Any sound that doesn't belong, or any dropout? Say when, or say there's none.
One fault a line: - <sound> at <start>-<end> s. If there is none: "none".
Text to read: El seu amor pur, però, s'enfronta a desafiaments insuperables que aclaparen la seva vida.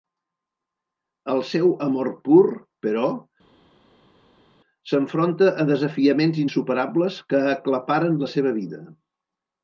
none